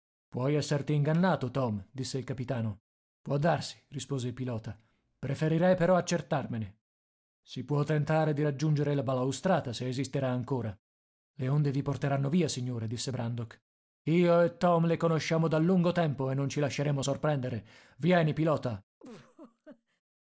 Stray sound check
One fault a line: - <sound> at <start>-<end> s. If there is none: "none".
- laugh at 19.0-20.0 s